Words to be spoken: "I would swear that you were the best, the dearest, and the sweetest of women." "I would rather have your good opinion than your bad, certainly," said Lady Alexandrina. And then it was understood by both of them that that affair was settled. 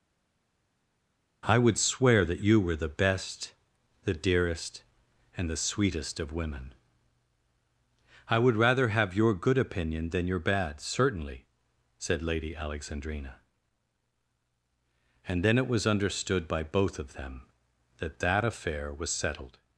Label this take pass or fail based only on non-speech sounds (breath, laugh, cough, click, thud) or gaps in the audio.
pass